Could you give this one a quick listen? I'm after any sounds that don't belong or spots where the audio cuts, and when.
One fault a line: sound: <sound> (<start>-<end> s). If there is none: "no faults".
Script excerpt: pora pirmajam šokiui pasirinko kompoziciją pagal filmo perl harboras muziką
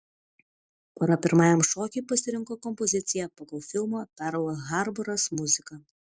no faults